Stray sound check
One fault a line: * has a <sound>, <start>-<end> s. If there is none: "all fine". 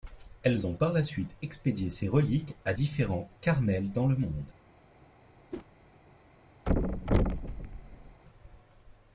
* has a whoosh, 5.5-5.7 s
* has a thud, 6.7-8.2 s